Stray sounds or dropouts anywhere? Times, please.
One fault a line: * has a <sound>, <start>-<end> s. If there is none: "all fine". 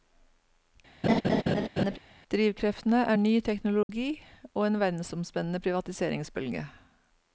* has a laugh, 1.0-2.0 s
* has a dropout, 3.8-3.9 s